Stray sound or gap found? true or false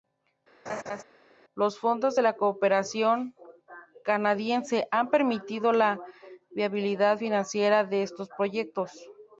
true